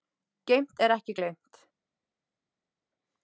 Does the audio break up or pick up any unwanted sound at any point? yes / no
no